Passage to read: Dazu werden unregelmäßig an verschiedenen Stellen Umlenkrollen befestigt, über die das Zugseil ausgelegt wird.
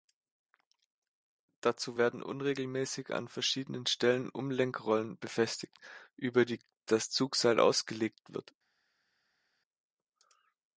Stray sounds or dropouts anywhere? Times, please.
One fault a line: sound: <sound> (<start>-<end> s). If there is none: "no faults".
no faults